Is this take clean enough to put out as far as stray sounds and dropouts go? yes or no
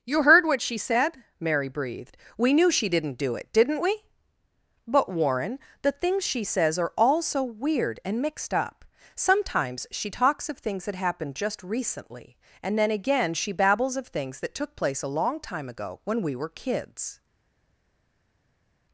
yes